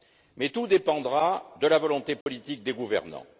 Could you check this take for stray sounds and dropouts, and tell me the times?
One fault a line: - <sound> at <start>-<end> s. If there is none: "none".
- dropout at 2.2-2.3 s